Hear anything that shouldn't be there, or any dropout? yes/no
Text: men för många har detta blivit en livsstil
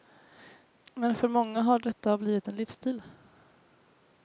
no